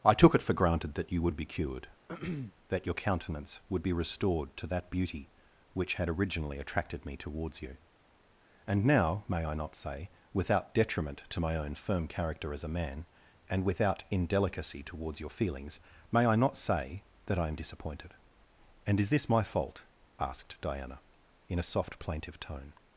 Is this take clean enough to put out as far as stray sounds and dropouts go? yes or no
no